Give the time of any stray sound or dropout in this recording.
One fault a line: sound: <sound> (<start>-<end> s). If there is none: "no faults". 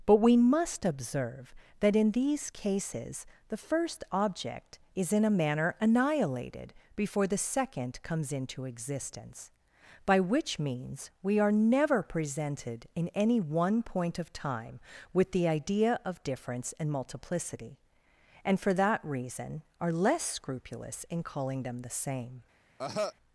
sound: cough (22.8-23.1 s)